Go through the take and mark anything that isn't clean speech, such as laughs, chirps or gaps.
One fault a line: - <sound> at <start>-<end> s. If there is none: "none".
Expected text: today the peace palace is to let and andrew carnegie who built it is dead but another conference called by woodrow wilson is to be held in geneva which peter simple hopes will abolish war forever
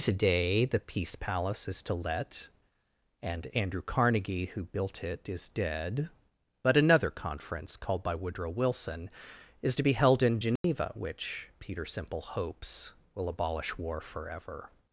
- dropout at 10.6-10.6 s